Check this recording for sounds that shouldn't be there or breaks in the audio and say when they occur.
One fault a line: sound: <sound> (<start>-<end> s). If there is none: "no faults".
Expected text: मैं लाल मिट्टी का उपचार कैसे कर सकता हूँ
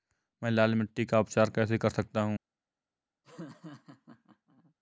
sound: laugh (3.2-4.7 s)